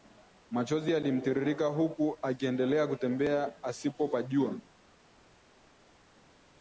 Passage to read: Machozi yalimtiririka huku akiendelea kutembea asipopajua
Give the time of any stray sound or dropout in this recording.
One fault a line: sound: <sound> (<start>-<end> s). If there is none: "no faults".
no faults